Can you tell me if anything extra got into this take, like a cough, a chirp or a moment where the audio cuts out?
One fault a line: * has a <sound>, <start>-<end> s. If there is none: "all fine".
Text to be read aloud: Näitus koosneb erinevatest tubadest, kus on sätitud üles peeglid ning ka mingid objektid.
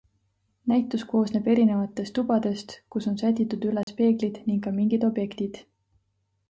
* has a dropout, 3.8-3.9 s